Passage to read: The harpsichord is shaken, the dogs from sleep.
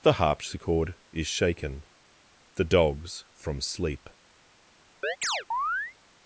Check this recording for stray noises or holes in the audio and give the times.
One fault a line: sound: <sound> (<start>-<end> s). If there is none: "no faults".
sound: chirp (5.0-5.9 s)